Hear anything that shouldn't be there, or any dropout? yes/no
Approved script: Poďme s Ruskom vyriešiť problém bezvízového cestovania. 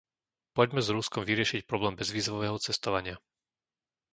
no